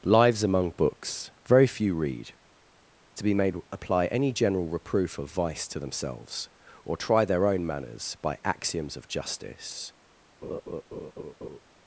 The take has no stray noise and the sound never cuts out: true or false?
false